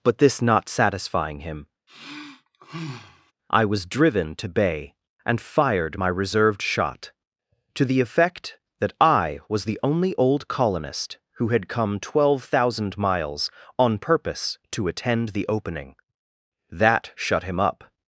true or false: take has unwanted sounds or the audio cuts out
true